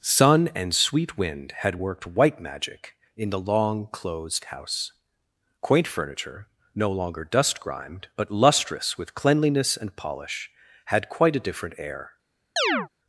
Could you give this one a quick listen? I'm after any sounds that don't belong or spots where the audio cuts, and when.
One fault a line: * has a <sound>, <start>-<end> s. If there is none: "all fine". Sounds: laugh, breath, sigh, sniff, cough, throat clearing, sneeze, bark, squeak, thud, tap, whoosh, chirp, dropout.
* has a chirp, 12.6-12.9 s